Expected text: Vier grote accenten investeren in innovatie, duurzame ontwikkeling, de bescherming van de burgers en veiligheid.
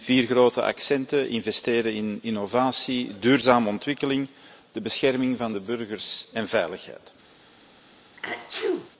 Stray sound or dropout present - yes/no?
yes